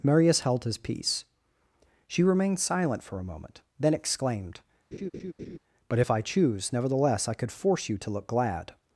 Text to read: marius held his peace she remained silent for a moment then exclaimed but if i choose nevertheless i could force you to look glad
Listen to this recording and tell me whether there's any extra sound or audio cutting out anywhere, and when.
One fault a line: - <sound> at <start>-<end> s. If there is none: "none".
- laugh at 4.9-5.6 s